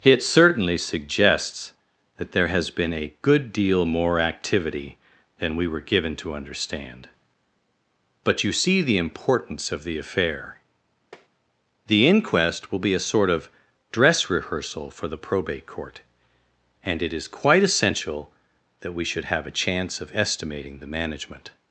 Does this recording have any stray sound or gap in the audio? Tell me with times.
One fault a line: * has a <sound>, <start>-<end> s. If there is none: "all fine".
* has a tap, 11.1-11.3 s